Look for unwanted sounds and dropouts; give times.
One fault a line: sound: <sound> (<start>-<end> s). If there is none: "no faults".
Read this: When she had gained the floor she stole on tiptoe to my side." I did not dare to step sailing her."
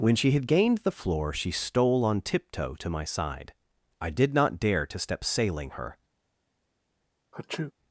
sound: sneeze (7.3-7.7 s)